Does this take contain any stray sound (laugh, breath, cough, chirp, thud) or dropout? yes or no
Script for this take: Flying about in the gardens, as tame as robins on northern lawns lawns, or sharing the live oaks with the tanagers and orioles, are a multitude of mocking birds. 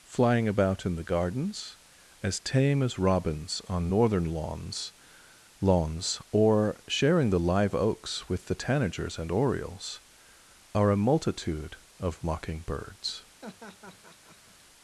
yes